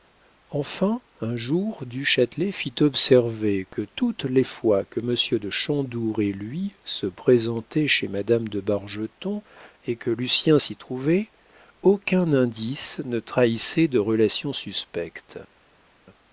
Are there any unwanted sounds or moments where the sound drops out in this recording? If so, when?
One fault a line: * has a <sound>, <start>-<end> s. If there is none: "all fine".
all fine